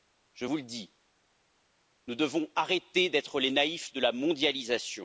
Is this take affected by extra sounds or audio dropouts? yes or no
no